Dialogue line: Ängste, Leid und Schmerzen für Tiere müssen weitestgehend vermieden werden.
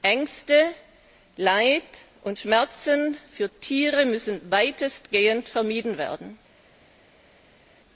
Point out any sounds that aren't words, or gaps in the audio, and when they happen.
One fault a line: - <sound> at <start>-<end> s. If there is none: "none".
none